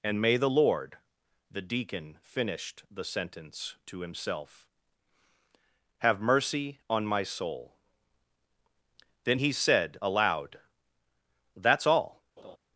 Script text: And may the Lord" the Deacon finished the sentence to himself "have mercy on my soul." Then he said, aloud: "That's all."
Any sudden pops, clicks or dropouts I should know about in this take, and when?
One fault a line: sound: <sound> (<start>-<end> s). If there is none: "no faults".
sound: laugh (12.4-12.6 s)